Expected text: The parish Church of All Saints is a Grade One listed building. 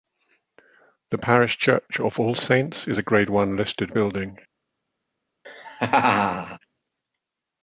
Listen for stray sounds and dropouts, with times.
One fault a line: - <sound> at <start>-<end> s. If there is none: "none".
- laugh at 5.4-6.6 s